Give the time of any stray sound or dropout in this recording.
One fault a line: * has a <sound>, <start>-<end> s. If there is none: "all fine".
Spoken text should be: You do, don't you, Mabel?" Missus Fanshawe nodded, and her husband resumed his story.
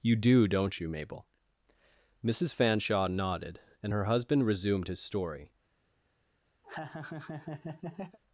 * has a laugh, 6.6-8.2 s